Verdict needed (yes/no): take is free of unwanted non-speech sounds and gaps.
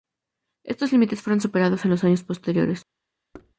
no